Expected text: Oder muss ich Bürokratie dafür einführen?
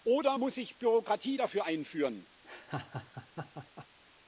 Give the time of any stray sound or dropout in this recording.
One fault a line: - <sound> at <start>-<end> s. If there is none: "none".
- laugh at 2.4-3.9 s